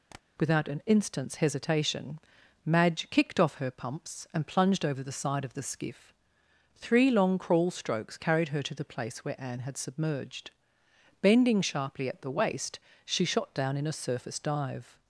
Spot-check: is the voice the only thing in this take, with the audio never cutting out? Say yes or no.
no